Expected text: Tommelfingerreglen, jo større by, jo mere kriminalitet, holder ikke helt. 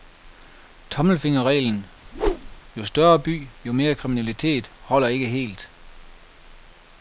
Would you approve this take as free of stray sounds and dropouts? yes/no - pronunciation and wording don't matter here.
no